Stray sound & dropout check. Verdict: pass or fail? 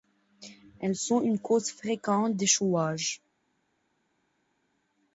pass